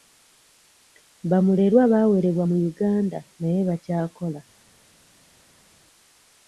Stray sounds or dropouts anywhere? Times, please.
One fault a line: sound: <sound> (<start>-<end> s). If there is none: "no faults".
no faults